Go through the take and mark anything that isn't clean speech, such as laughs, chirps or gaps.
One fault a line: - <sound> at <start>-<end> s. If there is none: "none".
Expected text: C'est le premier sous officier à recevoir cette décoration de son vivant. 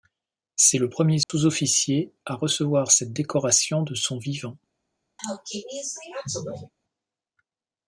- dropout at 1.2-1.3 s
- sneeze at 5.2-6.7 s